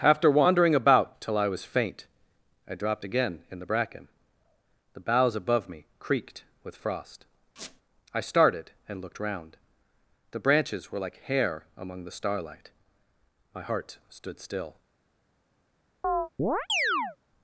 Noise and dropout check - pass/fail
fail